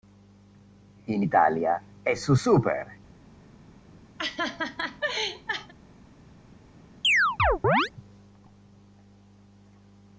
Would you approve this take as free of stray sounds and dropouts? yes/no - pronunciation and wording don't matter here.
no